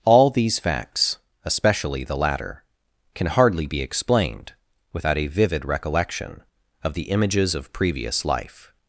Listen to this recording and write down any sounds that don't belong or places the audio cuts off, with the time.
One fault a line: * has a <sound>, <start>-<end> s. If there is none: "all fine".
all fine